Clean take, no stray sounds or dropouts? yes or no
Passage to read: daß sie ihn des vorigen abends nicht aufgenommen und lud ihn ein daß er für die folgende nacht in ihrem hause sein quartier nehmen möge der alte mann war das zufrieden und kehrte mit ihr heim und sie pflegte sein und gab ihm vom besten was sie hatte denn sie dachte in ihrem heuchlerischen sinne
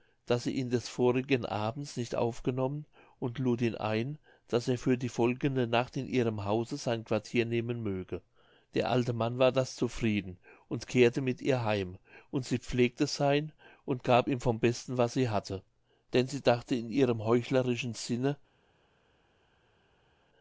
yes